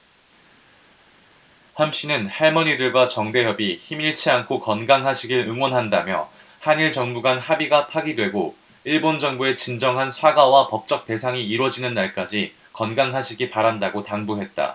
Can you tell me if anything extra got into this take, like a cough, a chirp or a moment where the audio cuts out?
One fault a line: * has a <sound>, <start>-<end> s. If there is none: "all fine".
all fine